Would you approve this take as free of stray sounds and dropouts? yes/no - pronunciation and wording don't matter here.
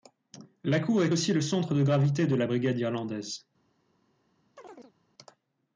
no